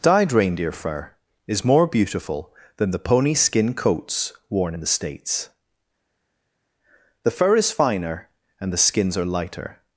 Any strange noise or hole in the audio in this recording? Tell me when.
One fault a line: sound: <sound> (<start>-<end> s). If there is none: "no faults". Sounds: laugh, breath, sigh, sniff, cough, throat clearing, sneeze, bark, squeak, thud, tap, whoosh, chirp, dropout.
no faults